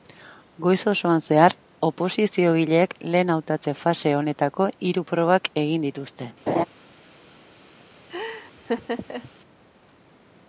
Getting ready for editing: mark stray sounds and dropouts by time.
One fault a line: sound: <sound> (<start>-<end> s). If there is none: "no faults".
sound: laugh (6.5-6.6 s)
sound: laugh (8.1-9.3 s)